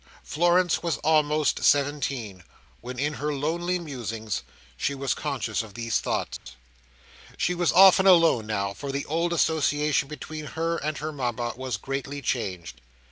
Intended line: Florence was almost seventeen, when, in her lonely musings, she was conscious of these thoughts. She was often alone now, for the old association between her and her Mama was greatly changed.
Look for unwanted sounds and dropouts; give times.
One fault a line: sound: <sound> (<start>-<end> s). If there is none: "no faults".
sound: dropout (6.4-6.5 s)